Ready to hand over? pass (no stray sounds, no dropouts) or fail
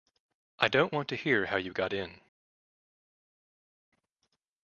pass